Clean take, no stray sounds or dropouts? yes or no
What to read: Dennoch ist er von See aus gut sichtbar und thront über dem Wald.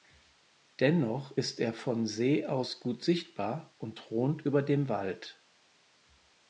yes